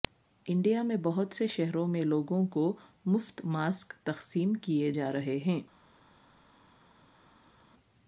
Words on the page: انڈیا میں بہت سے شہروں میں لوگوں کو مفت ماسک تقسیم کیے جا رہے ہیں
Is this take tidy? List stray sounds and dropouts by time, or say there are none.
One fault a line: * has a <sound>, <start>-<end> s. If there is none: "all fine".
all fine